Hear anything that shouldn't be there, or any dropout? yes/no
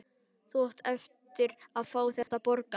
yes